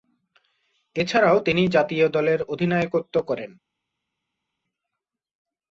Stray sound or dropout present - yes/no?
no